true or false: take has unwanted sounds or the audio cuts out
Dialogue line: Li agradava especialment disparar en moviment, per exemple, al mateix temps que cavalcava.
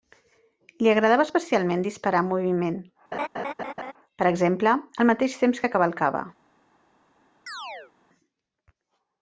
true